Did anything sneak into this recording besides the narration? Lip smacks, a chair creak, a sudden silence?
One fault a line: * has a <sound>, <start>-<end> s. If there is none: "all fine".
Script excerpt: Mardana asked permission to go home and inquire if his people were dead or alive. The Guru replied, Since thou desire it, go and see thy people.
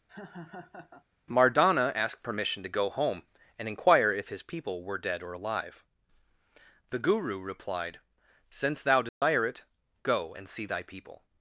* has a laugh, 0.1-1.0 s
* has a dropout, 9.1-9.2 s